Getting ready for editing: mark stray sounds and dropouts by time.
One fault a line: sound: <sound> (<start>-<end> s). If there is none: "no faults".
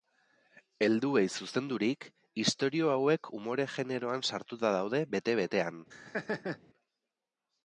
sound: laugh (5.9-6.6 s)